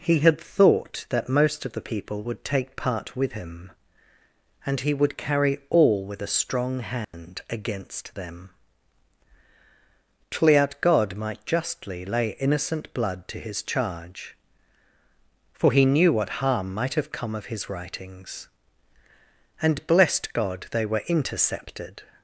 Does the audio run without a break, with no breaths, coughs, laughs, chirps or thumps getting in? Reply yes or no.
no